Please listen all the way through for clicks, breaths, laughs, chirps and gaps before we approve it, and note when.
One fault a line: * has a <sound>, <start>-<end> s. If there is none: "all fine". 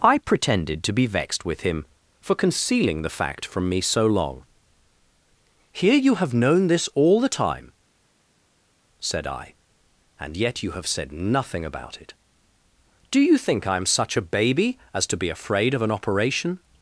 all fine